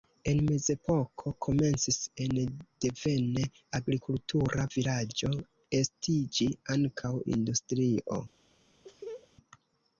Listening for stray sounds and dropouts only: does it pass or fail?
fail